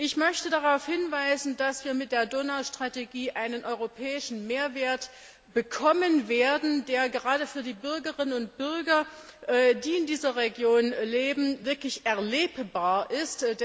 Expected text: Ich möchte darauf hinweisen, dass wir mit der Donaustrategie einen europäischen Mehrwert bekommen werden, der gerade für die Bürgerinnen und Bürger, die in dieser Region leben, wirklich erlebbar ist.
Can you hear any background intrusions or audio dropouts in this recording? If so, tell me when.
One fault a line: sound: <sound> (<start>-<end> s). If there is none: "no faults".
no faults